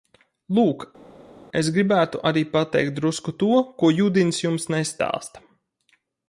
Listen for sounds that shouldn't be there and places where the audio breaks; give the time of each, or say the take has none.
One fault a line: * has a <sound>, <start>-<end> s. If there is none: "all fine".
all fine